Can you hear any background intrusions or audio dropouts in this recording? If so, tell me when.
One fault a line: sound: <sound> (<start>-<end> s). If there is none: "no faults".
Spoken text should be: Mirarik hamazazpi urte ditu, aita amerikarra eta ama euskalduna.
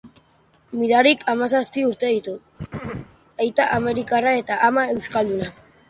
sound: throat clearing (2.6-3.2 s)